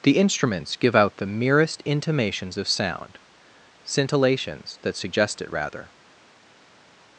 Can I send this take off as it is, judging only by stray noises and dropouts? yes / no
yes